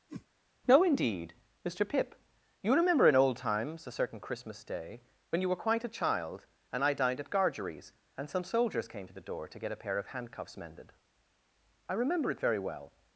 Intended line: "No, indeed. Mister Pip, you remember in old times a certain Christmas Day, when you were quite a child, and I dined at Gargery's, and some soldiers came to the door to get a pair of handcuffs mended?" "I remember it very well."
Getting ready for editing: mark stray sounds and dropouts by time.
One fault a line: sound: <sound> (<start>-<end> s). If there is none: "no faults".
sound: whoosh (0.1-0.3 s)